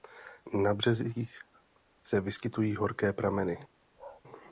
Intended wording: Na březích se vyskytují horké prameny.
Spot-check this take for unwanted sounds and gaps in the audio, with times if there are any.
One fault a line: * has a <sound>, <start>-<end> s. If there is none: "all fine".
* has a bark, 4.0-4.2 s